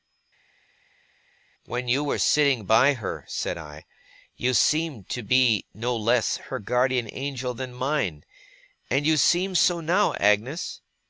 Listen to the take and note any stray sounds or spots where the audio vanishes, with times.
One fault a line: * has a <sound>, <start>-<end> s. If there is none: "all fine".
all fine